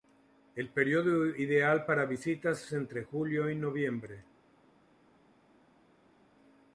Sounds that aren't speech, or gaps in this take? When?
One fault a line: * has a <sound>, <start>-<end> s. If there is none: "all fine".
all fine